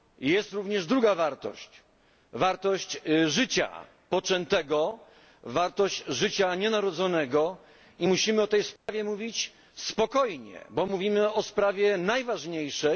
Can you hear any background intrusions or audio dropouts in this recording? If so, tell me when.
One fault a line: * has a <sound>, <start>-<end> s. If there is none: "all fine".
* has a dropout, 8.8-8.9 s